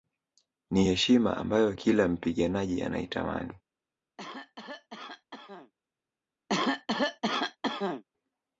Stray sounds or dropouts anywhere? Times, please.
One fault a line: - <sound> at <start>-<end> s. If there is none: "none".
- cough at 4.2-5.7 s
- cough at 6.5-8.0 s